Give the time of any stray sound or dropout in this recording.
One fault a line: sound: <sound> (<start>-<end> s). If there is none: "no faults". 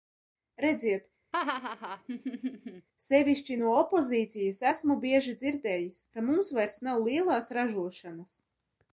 sound: laugh (1.3-2.9 s)